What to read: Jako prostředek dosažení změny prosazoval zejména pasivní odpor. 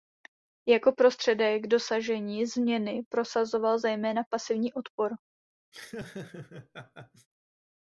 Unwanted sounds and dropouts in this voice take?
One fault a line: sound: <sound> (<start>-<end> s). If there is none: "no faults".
sound: laugh (5.7-7.3 s)